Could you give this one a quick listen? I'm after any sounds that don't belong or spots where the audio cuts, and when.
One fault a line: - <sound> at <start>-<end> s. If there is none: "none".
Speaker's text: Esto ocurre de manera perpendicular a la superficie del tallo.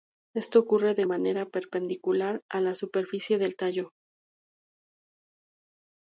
none